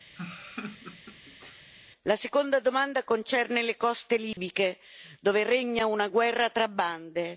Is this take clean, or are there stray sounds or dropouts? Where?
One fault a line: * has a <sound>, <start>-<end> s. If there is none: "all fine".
* has a laugh, 0.2-1.7 s
* has a dropout, 4.3-4.4 s